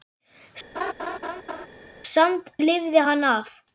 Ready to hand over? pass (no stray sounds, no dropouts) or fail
fail